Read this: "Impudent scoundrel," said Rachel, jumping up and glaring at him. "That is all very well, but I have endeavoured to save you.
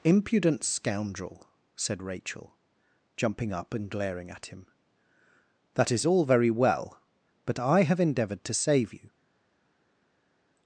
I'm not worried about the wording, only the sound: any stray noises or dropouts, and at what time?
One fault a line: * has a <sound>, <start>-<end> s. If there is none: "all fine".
all fine